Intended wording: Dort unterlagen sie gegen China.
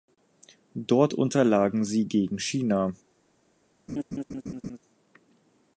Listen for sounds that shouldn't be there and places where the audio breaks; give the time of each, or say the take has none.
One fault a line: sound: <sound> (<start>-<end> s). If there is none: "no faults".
sound: laugh (3.9-4.8 s)